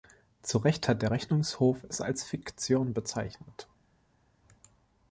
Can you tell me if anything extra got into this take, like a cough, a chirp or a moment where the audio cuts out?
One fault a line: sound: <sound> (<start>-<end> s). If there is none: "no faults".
no faults